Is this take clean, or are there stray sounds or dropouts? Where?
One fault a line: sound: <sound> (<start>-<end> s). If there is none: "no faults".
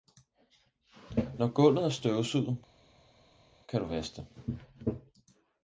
no faults